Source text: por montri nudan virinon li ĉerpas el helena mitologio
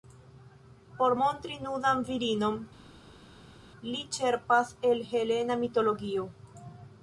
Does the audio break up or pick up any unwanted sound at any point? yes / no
no